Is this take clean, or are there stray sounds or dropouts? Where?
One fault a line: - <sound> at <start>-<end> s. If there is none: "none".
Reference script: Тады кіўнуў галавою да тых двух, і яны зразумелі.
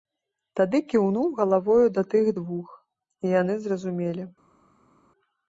none